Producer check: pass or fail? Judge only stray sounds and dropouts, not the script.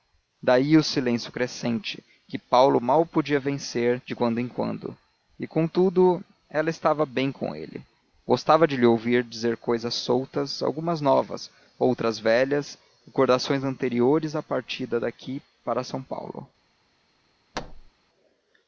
fail